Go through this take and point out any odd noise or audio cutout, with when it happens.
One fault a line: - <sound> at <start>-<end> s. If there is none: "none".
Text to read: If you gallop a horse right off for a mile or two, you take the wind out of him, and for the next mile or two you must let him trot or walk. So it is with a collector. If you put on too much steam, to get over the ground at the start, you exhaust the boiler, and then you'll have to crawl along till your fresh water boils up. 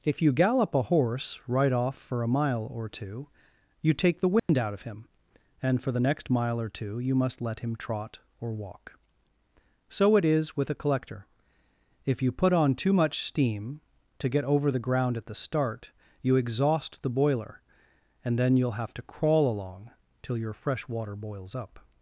- dropout at 4.4-4.5 s